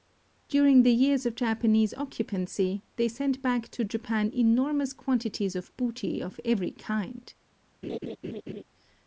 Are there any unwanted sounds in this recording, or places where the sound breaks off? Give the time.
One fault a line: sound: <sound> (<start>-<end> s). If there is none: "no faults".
sound: laugh (7.8-8.6 s)